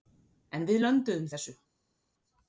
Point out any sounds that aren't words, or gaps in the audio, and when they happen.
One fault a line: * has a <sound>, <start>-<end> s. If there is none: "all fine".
all fine